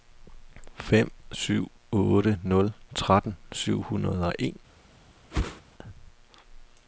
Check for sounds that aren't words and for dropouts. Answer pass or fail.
fail